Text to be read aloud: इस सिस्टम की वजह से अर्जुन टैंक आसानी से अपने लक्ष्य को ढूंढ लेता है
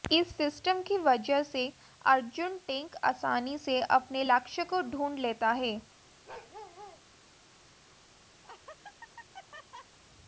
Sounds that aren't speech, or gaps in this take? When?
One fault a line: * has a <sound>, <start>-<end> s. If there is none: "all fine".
* has a bark, 6.3-7.0 s
* has a laugh, 8.4-10.0 s